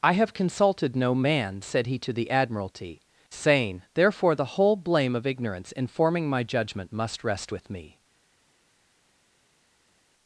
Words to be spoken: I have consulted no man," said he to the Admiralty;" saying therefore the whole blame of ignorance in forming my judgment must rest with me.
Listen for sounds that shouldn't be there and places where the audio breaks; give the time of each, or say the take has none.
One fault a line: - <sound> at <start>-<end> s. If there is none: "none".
none